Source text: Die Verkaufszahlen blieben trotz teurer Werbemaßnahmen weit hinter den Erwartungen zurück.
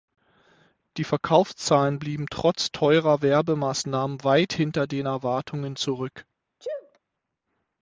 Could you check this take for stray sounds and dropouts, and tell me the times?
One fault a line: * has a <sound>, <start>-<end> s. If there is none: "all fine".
* has a sneeze, 6.6-7.0 s